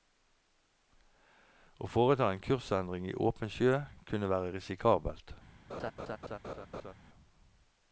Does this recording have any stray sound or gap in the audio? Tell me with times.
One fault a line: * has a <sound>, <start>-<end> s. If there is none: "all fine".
* has a laugh, 5.7-6.9 s